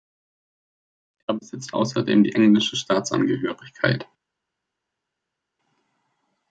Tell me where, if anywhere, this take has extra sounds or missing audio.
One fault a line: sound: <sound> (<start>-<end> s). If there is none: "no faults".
no faults